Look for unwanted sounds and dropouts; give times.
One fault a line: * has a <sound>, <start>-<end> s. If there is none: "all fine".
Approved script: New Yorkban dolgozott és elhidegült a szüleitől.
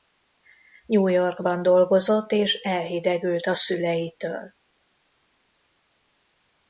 all fine